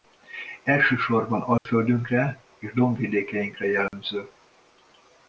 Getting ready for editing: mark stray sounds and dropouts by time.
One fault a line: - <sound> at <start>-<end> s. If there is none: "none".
- dropout at 1.6-1.7 s
- dropout at 3.9-3.9 s